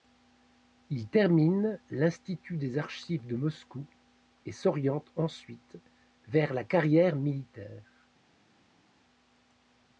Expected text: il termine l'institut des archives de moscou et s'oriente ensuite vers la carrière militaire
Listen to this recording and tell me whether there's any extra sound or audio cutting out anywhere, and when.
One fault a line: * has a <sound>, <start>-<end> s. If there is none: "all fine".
all fine